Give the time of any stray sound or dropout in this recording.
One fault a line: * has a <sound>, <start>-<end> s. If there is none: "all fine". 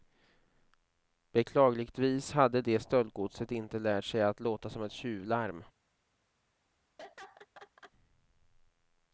* has a laugh, 7.0-7.9 s